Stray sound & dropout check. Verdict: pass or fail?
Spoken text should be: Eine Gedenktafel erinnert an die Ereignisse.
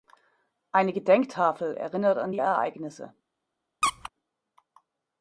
fail